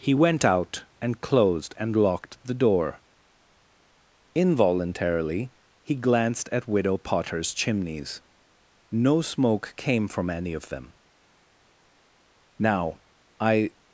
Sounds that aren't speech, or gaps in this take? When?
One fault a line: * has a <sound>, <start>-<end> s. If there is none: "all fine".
all fine